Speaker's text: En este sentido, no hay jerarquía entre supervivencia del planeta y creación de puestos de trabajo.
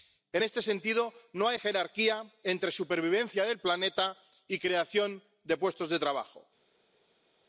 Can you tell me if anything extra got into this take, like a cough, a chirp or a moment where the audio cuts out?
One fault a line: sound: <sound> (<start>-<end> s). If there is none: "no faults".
no faults